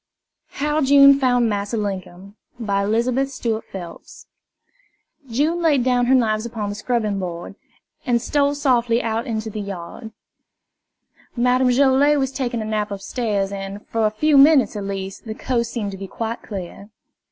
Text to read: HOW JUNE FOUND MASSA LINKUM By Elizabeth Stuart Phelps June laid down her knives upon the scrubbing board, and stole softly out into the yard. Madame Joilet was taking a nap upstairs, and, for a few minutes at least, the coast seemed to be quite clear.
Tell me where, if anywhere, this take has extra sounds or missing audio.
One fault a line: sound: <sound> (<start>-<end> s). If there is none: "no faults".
no faults